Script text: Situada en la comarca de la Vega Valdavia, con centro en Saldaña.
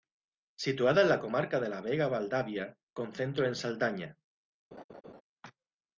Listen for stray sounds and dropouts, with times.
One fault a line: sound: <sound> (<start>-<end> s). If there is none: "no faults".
sound: laugh (4.7-5.2 s)